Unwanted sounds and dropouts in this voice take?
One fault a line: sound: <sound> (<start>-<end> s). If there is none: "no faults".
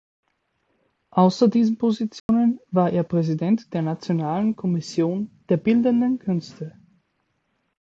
sound: dropout (2.2-2.3 s)